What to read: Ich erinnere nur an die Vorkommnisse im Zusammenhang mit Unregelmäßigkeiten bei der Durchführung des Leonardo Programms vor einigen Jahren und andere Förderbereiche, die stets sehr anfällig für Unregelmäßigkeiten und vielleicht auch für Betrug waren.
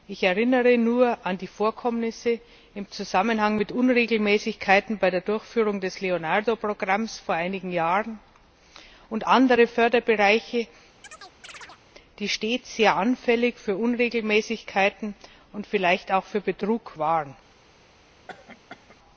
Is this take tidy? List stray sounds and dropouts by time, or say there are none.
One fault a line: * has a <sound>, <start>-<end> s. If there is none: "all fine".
* has a chirp, 11.0-11.8 s
* has a cough, 18.3-19.0 s